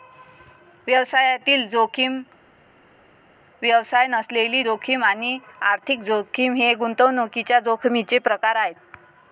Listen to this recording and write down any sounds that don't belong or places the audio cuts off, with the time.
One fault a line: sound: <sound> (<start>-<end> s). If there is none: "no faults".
no faults